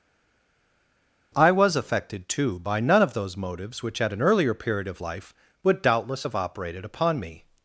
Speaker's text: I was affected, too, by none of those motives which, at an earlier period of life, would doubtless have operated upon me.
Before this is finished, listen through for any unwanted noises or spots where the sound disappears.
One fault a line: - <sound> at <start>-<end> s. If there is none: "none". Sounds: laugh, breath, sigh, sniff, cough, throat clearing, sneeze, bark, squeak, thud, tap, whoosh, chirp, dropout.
none